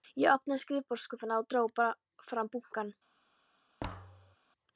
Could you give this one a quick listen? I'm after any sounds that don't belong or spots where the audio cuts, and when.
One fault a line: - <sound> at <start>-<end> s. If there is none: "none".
- thud at 3.8-4.4 s